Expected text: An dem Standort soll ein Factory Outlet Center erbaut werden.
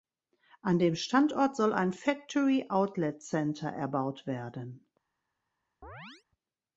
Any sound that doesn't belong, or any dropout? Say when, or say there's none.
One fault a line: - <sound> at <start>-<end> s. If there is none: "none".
- chirp at 5.8-6.2 s